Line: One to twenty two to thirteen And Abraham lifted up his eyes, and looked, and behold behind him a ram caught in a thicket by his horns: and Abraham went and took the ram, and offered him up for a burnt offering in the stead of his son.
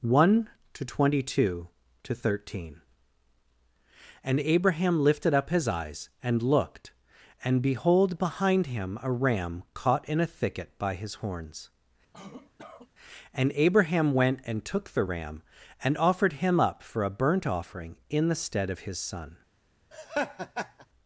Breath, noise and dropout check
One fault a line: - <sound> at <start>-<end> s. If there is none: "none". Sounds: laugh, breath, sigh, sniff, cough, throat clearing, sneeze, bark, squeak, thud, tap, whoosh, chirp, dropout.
- cough at 12.1-12.9 s
- laugh at 19.9-20.9 s